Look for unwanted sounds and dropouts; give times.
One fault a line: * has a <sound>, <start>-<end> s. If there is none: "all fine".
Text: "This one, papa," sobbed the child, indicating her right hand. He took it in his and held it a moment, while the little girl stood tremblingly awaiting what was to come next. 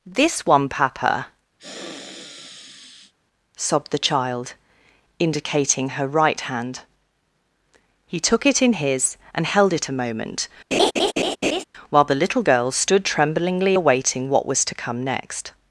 * has a sniff, 1.6-3.1 s
* has a laugh, 10.7-11.6 s